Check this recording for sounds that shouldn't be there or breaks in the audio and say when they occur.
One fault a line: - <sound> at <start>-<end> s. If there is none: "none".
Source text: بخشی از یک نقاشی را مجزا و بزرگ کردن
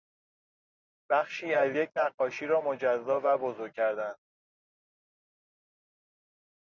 none